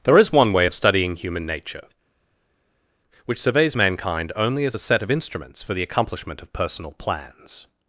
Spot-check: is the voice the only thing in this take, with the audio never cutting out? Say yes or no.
yes